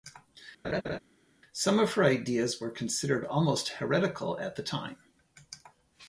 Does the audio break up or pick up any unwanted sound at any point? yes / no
yes